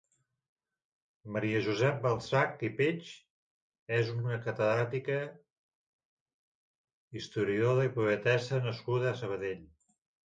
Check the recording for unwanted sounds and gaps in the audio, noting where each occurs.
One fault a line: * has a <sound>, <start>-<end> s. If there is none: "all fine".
all fine